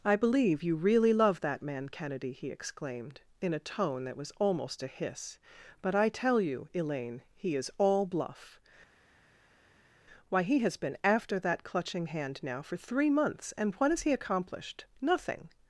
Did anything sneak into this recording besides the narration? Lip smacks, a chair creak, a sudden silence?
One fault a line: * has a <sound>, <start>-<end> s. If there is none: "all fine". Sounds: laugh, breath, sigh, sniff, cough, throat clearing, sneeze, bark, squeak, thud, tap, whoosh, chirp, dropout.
all fine